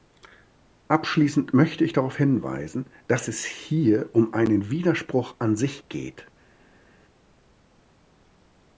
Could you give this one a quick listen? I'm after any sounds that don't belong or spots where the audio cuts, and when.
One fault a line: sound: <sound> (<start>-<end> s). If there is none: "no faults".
no faults